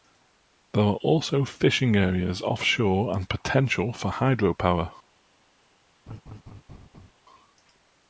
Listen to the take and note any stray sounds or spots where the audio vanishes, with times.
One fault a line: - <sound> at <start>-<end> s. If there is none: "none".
- laugh at 6.1-7.1 s